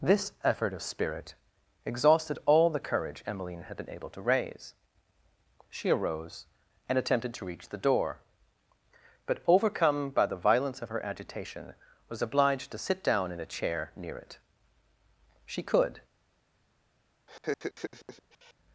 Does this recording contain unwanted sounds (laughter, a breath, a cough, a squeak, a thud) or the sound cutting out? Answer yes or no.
yes